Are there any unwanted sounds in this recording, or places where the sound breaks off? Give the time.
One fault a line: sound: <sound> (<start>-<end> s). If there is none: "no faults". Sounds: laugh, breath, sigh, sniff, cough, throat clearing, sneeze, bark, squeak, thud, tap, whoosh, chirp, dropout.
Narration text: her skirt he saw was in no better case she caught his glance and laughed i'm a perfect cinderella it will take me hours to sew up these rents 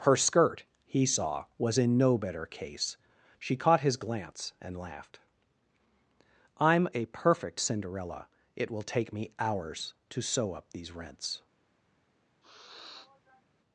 sound: sniff (12.4-13.4 s)